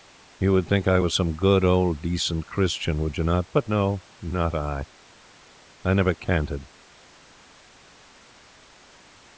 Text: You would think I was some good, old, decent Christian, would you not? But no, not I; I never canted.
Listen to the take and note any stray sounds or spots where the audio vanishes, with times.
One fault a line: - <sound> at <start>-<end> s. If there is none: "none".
none